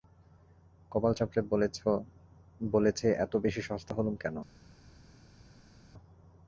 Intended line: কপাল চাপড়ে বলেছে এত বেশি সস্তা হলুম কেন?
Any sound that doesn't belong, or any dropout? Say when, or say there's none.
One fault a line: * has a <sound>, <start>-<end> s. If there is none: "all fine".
all fine